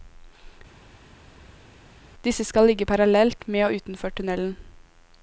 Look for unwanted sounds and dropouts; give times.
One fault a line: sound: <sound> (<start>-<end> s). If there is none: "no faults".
no faults